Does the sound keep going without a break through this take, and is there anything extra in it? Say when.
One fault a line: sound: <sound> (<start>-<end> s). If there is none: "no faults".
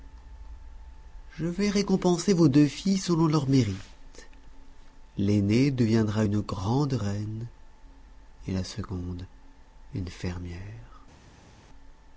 no faults